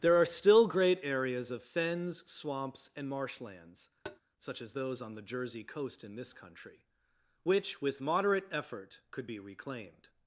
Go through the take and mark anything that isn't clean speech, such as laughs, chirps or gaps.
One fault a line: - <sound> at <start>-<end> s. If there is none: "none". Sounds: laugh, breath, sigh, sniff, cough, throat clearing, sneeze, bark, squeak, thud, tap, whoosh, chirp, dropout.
- tap at 4.0-4.2 s